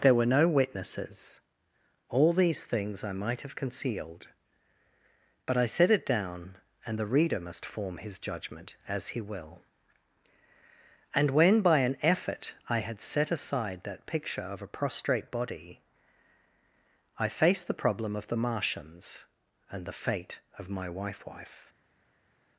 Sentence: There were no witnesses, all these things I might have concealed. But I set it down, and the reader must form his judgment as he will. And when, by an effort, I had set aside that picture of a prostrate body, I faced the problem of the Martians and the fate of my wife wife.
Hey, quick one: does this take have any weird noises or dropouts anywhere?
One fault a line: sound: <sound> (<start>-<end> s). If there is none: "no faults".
no faults